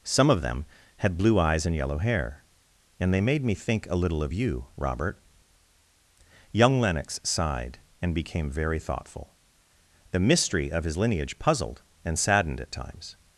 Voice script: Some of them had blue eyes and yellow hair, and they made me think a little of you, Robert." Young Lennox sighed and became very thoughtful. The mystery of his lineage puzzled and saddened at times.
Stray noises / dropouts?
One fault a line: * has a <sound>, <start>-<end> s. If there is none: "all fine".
all fine